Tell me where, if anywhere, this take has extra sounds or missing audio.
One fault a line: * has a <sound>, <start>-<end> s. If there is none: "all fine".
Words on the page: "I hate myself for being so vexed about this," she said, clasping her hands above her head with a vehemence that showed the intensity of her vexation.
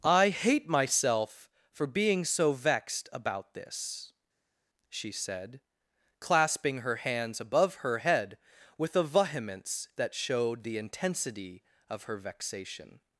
all fine